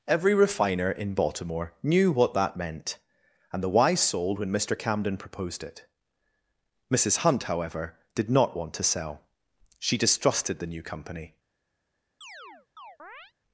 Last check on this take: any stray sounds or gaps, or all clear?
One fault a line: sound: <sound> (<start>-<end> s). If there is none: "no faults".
sound: chirp (12.2-13.3 s)